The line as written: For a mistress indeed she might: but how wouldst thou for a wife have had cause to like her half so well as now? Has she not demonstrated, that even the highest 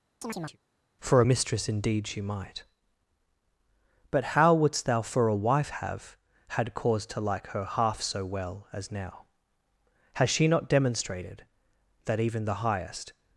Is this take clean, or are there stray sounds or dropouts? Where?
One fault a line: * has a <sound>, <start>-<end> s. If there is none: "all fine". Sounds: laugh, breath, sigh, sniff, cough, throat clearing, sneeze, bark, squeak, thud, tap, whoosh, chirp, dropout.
* has a chirp, 0.2-0.6 s